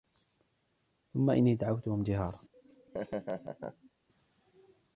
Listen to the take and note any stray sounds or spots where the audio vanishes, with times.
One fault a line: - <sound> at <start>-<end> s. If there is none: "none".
- laugh at 2.5-3.9 s